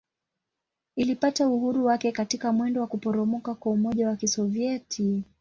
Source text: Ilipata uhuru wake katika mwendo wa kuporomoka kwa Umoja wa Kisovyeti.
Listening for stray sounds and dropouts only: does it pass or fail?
pass